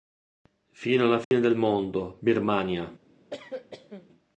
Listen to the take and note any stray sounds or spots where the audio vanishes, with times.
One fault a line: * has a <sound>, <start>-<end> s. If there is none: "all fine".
* has a dropout, 1.2-1.3 s
* has a cough, 3.3-4.1 s